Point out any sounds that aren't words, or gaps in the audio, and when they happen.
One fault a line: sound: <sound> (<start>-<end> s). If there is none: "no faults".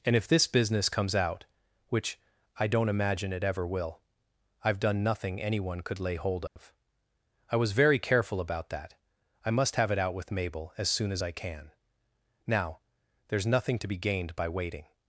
sound: dropout (6.5-6.6 s)